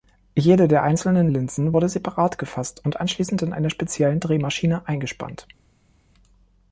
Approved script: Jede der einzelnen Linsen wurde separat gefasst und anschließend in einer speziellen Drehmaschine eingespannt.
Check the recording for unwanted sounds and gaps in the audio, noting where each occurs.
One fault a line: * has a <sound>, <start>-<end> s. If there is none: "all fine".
all fine